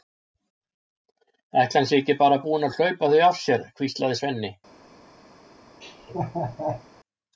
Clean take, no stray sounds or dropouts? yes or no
no